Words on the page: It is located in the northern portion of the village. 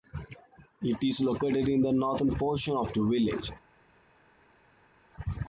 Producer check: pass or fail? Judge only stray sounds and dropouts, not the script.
pass